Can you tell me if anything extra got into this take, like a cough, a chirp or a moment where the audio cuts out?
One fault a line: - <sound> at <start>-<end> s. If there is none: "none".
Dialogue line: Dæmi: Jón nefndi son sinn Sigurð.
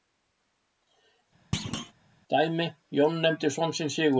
- thud at 1.5-1.9 s